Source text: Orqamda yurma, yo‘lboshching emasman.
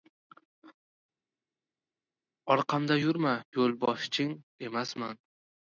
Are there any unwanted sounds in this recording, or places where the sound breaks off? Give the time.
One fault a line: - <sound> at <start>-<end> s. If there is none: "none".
none